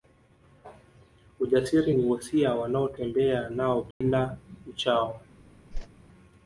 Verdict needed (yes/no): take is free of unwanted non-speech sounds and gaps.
no